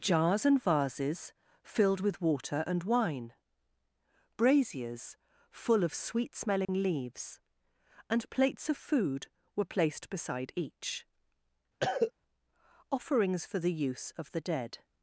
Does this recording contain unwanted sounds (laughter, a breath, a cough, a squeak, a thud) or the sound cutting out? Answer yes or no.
yes